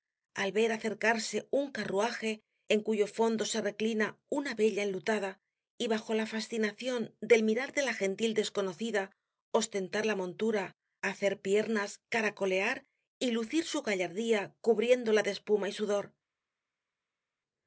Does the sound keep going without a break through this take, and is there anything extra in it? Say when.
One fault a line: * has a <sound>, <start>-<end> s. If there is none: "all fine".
all fine